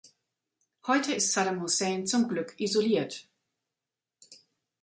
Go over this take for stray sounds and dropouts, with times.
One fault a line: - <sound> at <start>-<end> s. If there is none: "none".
none